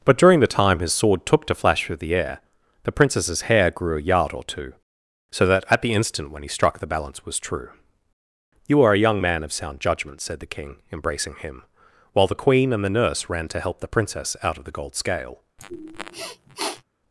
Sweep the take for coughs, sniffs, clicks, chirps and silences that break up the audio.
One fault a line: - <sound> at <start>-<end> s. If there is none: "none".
- sniff at 15.6-16.8 s